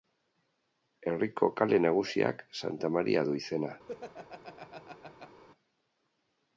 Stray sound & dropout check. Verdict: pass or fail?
fail